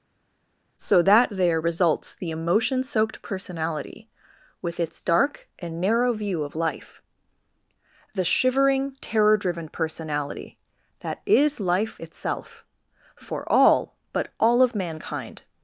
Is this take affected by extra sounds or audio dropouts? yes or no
no